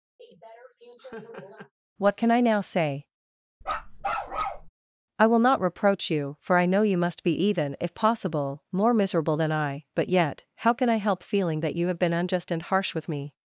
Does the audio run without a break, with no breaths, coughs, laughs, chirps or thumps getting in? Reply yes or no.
no